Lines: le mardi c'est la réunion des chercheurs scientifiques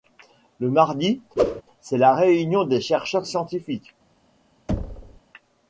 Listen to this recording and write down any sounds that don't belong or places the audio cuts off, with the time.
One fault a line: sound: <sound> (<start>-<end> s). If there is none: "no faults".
sound: whoosh (1.4-1.6 s)
sound: thud (4.7-5.2 s)